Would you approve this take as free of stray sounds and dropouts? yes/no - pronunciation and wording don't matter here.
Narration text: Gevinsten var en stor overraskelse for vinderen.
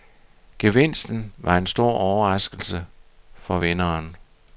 yes